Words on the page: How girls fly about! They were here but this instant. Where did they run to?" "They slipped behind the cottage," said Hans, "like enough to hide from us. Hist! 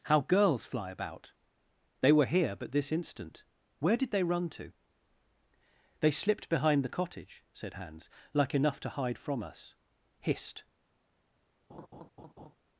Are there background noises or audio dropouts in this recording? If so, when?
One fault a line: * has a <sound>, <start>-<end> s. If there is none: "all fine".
* has a laugh, 11.7-12.6 s